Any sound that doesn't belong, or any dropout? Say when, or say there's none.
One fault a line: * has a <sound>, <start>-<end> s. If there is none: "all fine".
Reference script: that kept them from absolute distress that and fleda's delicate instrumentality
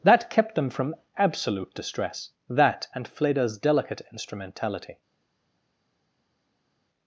all fine